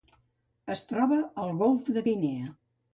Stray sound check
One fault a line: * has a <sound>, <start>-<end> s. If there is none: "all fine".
all fine